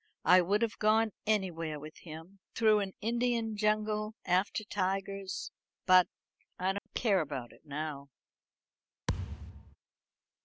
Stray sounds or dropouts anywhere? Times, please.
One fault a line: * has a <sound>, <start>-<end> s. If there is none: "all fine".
* has a dropout, 6.8-6.9 s
* has a thud, 9.1-9.8 s